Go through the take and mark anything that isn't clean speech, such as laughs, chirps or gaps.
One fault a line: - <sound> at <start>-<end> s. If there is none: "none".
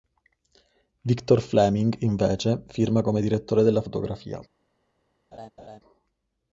- laugh at 5.3-5.8 s